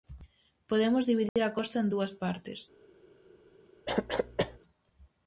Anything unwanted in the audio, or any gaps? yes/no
yes